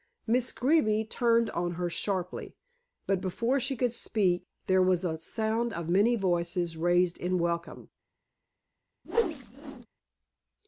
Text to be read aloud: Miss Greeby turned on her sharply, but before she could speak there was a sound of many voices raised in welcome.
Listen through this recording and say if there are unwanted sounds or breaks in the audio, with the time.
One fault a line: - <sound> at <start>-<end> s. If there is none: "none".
- whoosh at 9.0-9.9 s